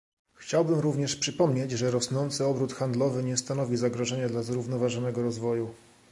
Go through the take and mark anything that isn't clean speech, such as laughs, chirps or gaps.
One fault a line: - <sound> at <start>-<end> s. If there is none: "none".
none